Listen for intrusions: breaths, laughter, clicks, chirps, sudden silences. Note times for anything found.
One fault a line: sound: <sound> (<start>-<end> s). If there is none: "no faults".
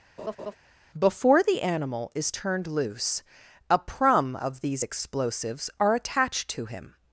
sound: laugh (0.2-0.6 s)